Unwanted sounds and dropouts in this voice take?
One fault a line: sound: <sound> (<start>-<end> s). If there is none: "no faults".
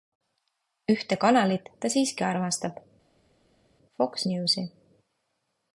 no faults